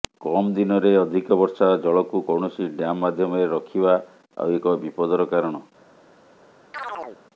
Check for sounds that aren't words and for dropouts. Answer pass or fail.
fail